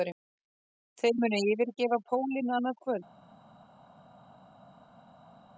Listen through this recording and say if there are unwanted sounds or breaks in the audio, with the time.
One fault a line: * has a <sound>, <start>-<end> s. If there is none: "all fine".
all fine